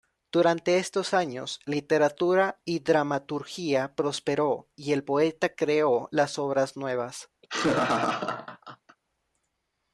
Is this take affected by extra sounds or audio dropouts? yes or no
yes